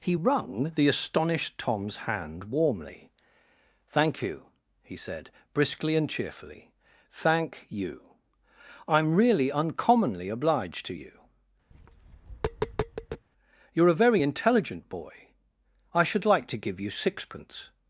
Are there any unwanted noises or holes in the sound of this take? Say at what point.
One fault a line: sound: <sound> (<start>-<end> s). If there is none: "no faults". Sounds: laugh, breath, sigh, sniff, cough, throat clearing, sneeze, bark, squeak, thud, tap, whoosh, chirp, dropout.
sound: tap (11.7-13.2 s)